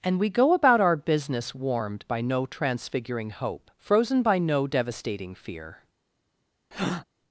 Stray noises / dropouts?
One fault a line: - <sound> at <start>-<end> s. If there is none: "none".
- breath at 6.7-7.0 s